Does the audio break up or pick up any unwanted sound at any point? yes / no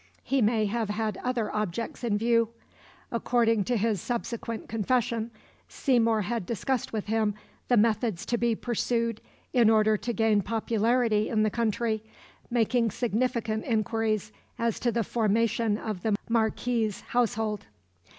no